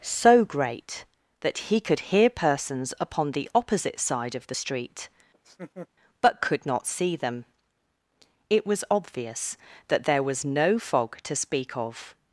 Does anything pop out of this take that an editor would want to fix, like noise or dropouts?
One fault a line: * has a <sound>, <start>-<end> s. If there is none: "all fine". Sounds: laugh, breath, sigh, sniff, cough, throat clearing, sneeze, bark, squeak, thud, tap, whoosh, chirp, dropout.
* has a laugh, 5.3-5.9 s